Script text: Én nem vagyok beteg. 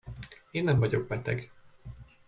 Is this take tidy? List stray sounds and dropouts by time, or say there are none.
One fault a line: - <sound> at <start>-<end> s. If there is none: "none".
none